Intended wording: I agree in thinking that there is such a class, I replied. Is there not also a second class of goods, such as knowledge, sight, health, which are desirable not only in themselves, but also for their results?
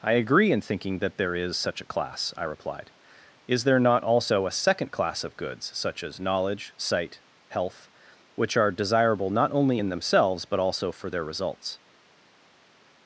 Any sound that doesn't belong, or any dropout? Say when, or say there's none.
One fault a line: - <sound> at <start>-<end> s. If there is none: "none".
none